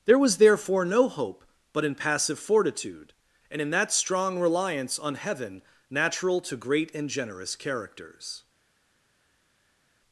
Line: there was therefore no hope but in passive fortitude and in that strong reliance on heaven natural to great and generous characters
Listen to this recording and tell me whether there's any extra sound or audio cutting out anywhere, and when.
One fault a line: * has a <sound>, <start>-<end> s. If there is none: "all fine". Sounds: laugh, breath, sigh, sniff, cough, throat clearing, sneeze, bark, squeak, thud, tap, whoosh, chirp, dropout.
all fine